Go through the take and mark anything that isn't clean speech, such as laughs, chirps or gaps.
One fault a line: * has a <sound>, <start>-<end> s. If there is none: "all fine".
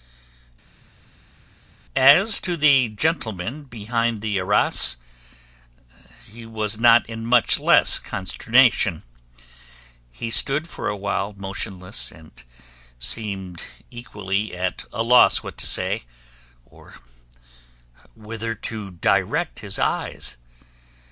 all fine